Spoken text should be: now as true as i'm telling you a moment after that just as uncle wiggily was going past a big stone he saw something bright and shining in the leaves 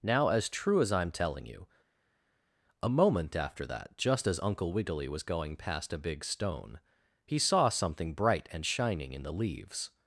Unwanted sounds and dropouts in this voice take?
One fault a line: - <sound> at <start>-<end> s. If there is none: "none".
none